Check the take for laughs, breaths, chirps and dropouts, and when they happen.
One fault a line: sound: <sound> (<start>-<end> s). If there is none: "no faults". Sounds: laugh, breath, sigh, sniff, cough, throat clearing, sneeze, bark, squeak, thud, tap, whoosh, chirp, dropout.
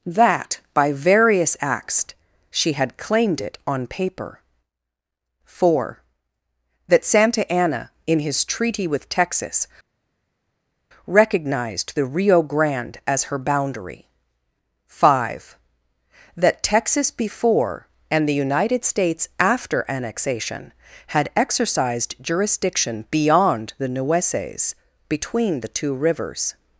no faults